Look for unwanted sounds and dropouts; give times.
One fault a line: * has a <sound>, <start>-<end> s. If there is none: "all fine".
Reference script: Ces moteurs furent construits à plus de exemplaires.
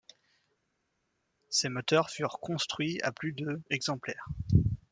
all fine